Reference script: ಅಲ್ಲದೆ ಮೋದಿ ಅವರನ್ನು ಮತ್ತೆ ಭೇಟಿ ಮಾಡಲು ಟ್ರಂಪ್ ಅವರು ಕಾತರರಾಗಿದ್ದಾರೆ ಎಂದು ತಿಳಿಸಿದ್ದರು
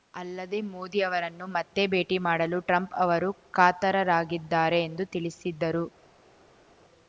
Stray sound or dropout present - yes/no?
no